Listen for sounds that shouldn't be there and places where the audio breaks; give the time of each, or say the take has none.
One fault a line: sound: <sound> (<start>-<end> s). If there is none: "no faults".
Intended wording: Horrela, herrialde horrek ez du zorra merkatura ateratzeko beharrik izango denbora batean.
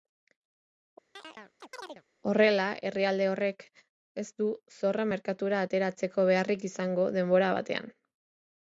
sound: chirp (1.2-2.0 s)